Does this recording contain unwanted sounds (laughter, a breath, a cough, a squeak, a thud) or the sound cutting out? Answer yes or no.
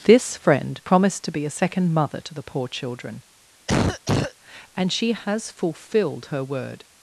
yes